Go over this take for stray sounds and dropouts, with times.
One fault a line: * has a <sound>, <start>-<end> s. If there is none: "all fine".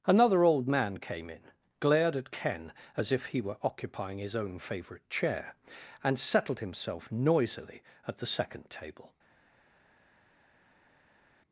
all fine